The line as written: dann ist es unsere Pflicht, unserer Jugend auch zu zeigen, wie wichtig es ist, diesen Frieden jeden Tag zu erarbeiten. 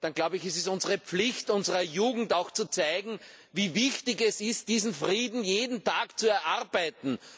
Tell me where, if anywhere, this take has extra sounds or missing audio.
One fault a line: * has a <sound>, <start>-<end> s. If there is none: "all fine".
all fine